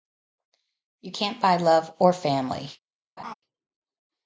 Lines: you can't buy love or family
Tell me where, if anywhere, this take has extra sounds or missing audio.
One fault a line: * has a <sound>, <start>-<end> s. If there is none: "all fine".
* has a laugh, 3.2-3.3 s